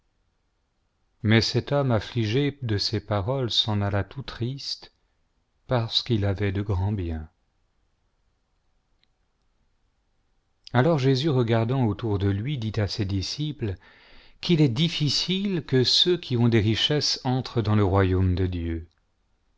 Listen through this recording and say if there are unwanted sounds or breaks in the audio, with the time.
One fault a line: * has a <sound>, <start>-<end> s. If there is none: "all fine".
all fine